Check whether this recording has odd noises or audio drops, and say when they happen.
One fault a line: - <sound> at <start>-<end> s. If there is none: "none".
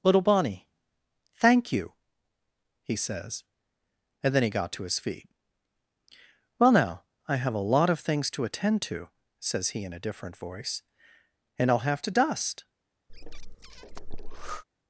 - breath at 13.1-14.6 s